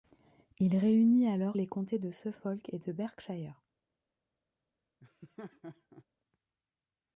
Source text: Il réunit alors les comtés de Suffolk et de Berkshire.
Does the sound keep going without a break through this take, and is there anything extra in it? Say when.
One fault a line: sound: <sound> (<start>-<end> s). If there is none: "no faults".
sound: laugh (5.0-6.0 s)